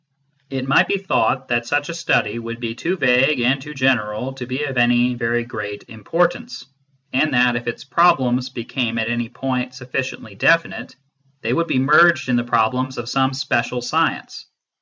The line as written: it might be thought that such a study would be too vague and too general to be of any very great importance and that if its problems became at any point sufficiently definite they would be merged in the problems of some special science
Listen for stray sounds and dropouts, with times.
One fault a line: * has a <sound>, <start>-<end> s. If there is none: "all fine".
all fine